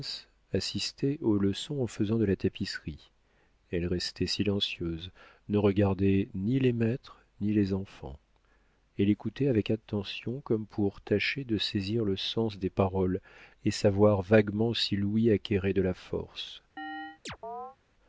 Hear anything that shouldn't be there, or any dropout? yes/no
yes